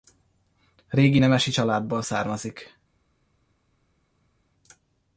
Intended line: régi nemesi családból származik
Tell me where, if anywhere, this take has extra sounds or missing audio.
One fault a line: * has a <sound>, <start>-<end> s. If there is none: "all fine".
all fine